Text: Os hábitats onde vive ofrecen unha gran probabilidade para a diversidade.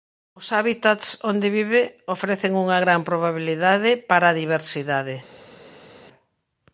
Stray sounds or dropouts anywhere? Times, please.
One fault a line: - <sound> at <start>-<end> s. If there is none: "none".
none